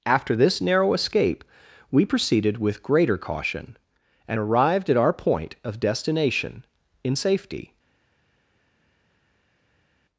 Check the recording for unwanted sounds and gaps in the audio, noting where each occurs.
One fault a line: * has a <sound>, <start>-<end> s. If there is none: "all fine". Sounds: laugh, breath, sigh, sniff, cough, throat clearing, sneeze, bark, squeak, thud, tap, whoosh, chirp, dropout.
all fine